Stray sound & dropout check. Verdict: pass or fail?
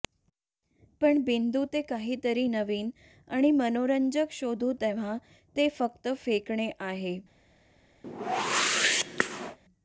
fail